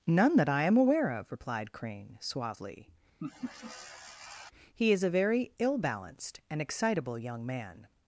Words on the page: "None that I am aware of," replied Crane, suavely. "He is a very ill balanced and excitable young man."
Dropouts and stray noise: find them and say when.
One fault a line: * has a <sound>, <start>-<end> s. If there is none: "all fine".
* has a laugh, 3.2-4.5 s